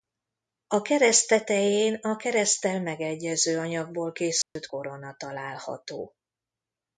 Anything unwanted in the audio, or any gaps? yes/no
yes